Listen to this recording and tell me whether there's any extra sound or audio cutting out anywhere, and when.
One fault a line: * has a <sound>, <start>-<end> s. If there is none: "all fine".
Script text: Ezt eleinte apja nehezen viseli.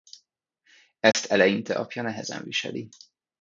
* has a dropout, 1.1-1.1 s